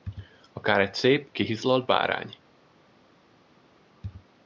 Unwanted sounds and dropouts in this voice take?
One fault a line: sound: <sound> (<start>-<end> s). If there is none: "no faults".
no faults